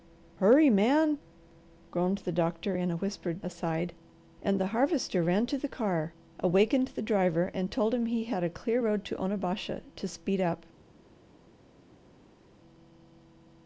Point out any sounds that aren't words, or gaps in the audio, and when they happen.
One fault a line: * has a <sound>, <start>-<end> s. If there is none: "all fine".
all fine